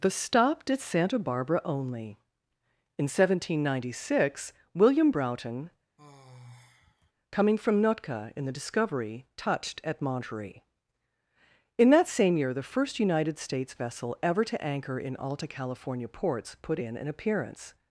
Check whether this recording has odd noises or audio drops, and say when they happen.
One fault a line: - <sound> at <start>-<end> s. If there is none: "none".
- sigh at 6.0-7.1 s